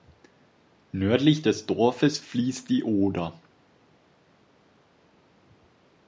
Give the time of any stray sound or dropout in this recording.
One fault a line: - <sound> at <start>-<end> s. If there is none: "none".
none